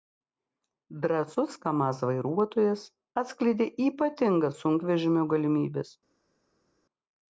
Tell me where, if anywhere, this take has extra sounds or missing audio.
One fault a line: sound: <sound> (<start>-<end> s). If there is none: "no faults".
no faults